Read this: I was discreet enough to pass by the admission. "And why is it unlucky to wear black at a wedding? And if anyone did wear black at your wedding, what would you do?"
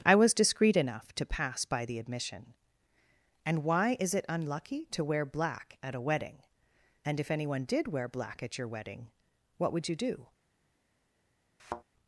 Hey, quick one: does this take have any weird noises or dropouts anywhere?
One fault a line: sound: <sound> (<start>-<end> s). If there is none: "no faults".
sound: thud (11.6-11.8 s)